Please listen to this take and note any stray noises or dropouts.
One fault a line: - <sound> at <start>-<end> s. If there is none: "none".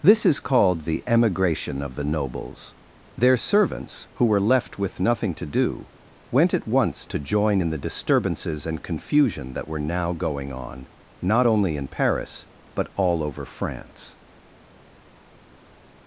none